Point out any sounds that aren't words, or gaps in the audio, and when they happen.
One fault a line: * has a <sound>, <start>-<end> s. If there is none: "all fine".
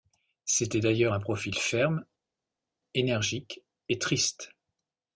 all fine